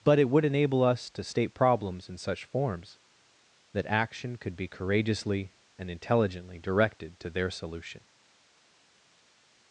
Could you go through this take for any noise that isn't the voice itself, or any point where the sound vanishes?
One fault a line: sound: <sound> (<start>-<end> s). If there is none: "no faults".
no faults